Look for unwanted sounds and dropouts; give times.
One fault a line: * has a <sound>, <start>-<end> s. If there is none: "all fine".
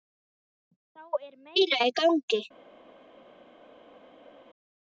all fine